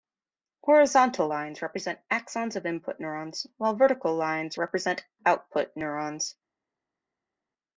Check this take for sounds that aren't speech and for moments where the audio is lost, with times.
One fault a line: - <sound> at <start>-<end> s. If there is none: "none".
none